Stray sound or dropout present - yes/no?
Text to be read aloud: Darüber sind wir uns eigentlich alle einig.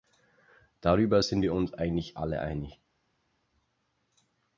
no